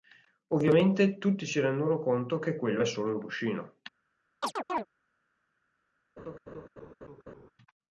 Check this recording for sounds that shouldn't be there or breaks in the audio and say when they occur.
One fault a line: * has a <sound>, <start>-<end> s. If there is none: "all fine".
* has a chirp, 4.4-4.9 s
* has a laugh, 6.2-7.5 s